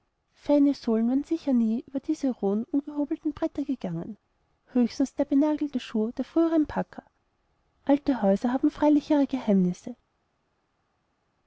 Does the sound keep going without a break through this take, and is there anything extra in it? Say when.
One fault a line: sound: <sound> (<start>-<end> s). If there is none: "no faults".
no faults